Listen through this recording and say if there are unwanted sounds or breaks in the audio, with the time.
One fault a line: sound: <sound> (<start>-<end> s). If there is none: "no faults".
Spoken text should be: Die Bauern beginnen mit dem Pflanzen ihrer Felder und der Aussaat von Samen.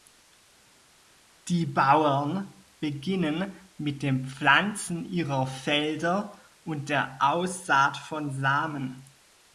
no faults